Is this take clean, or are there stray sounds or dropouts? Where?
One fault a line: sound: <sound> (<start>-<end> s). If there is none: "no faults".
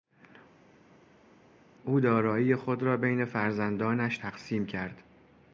no faults